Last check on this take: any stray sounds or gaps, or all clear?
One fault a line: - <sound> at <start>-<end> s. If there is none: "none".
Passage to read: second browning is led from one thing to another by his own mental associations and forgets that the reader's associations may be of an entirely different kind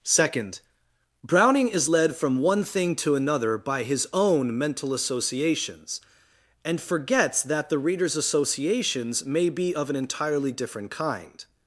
none